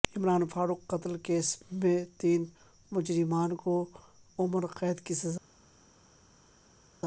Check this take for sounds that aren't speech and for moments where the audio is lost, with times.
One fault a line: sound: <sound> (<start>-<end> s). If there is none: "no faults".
no faults